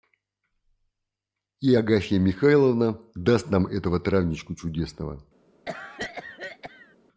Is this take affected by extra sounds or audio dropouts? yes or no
yes